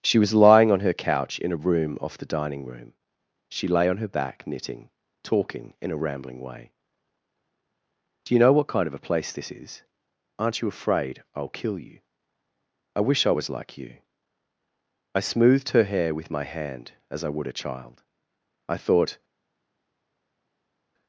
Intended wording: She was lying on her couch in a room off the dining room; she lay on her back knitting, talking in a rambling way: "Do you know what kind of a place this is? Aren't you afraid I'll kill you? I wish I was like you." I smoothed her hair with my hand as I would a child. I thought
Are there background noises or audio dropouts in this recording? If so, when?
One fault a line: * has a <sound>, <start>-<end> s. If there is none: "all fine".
all fine